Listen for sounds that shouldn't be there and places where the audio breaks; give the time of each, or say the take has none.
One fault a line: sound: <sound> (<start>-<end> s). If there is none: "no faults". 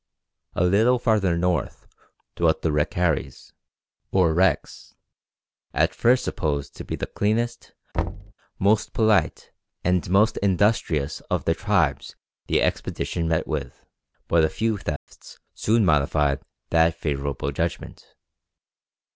sound: thud (7.9-8.3 s)
sound: dropout (15.0-15.1 s)